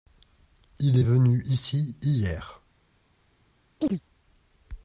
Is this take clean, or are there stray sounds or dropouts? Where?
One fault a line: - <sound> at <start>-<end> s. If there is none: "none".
- chirp at 3.8-4.0 s